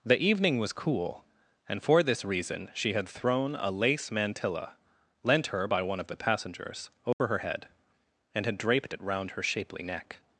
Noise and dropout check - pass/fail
fail